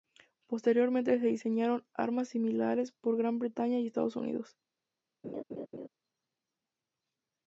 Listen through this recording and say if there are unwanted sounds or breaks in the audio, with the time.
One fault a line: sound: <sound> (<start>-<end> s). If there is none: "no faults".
sound: laugh (5.2-5.9 s)